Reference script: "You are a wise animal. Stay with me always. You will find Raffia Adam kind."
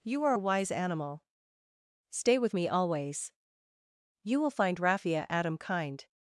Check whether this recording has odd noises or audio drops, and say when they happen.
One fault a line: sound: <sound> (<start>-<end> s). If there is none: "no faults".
no faults